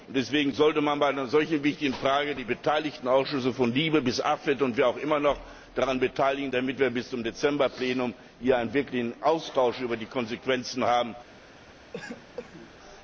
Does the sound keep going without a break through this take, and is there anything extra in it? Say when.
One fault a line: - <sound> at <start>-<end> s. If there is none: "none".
- cough at 11.9-12.7 s